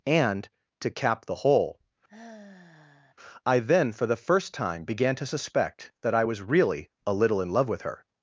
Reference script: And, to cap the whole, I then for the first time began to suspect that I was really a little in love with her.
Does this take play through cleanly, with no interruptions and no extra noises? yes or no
no